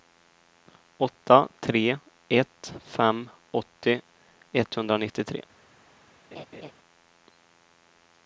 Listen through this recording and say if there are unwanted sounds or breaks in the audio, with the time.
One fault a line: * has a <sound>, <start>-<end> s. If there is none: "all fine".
* has a laugh, 6.3-6.7 s